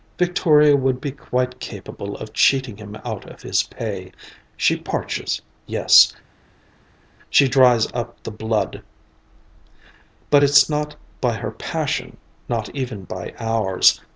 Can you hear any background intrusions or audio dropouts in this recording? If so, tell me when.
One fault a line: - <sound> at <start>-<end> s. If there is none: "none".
none